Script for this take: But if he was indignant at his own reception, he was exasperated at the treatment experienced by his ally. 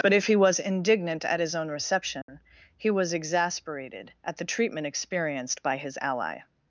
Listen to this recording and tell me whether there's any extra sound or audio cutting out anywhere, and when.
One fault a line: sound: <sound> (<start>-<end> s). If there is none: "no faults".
sound: dropout (2.2-2.3 s)